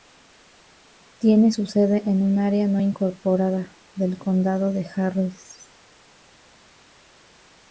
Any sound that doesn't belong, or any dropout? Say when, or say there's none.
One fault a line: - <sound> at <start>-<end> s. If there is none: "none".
none